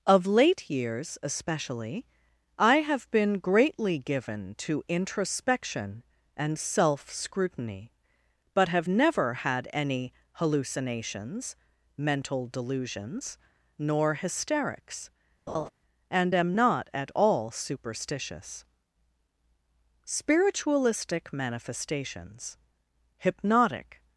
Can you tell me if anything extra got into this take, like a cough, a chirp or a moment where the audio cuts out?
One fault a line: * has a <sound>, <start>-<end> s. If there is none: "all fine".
* has a laugh, 15.5-15.7 s